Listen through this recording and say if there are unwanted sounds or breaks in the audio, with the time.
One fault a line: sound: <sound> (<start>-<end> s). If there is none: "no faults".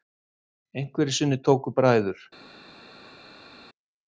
no faults